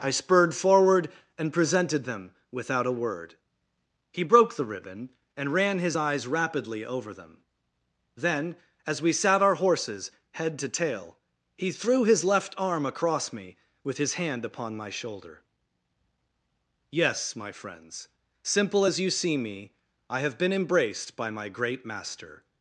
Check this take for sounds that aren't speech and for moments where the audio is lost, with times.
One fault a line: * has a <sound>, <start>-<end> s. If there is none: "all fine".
all fine